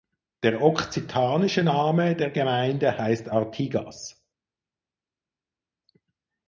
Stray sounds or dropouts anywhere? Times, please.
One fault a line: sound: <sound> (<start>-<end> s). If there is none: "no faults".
no faults